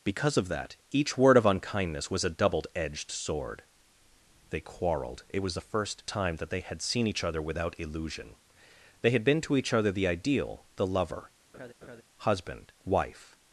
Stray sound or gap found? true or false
true